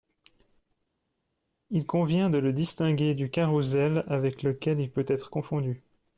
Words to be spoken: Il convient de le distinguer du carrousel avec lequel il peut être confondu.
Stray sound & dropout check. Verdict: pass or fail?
pass